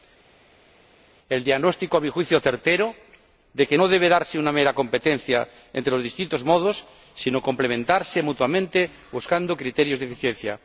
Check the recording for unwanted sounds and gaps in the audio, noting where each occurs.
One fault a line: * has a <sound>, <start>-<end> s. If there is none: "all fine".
all fine